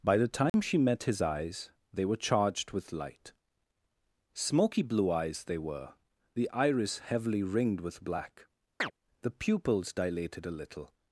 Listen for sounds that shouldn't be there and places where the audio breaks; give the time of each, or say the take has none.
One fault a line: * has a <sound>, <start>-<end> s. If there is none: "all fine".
* has a dropout, 0.5-0.5 s
* has a chirp, 8.8-8.9 s